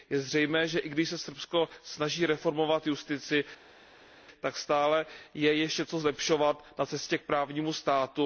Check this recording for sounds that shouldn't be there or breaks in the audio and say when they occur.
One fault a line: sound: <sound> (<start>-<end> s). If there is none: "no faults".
no faults